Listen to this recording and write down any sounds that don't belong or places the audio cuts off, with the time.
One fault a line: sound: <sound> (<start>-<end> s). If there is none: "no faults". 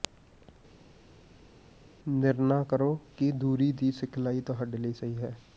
no faults